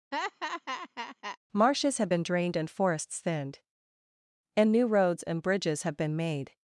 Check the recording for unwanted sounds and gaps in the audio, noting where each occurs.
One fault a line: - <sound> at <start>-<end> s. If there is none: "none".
- laugh at 0.1-1.4 s